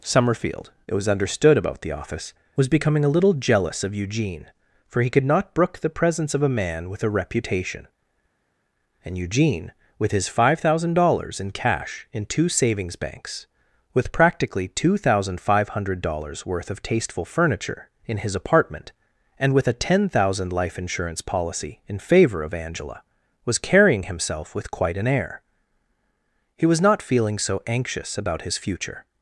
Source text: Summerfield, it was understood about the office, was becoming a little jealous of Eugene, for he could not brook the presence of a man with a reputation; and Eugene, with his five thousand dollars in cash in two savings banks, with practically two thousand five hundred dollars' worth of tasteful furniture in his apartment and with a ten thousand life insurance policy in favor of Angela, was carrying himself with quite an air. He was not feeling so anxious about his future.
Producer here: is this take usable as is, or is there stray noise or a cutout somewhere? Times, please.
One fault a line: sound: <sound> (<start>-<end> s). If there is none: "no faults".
no faults